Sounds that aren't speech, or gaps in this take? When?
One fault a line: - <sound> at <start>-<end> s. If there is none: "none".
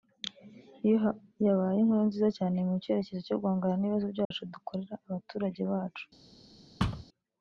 - dropout at 4.2-4.3 s
- thud at 6.8-7.0 s